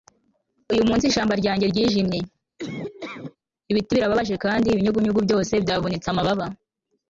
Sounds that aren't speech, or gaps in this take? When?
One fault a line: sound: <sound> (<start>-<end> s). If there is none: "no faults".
sound: laugh (2.6-3.4 s)